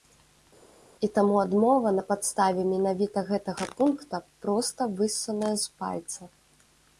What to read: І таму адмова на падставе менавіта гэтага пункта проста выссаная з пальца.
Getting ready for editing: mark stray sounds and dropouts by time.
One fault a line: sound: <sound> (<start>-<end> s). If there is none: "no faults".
no faults